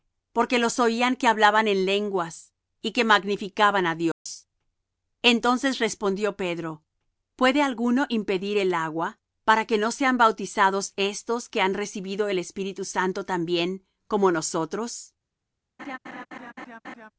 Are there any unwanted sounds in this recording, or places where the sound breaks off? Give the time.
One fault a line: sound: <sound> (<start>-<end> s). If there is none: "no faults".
sound: dropout (4.1-4.3 s)
sound: laugh (15.8-17.1 s)